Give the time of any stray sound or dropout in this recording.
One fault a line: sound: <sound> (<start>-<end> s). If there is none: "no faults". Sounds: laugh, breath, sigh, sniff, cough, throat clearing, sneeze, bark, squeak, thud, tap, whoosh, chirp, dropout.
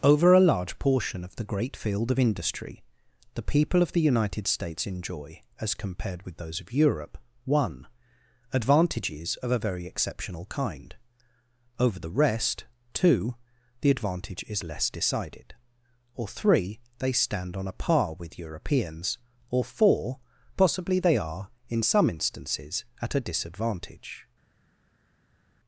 no faults